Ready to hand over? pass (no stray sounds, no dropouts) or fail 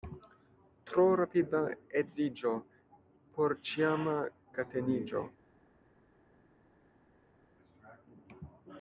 pass